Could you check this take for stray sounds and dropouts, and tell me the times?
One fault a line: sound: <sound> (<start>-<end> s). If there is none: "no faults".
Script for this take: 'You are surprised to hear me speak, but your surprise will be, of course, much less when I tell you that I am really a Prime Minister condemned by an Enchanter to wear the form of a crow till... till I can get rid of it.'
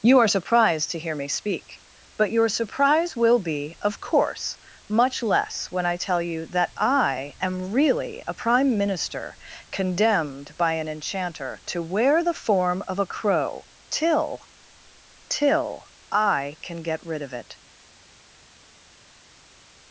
no faults